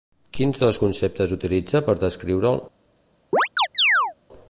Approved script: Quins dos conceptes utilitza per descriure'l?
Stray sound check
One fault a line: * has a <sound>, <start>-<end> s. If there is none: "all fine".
* has a chirp, 3.3-4.1 s